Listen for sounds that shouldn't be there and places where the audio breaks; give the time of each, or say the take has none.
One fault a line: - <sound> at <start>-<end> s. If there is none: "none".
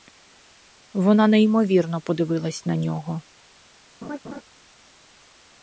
- laugh at 4.0-4.4 s